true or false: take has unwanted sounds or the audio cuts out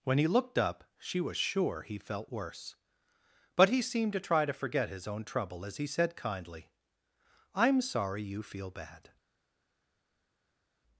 false